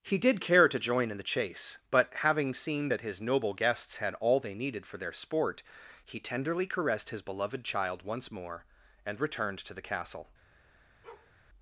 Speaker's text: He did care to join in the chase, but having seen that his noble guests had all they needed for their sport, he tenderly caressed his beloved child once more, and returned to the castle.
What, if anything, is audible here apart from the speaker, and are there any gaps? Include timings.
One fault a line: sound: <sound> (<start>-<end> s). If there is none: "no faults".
sound: bark (11.0-11.3 s)